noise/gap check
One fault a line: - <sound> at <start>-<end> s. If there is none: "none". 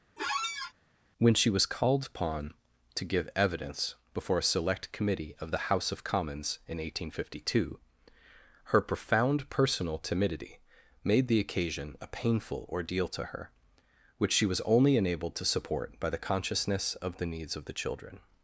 - squeak at 0.2-0.7 s